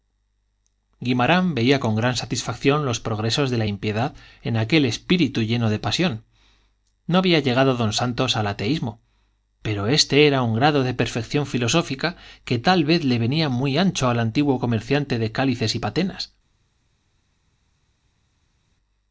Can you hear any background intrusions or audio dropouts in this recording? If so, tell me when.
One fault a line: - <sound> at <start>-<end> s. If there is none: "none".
none